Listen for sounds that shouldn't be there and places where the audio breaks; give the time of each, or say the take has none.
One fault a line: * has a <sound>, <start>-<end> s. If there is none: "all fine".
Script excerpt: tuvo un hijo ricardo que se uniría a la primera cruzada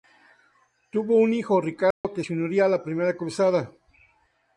* has a dropout, 1.9-2.0 s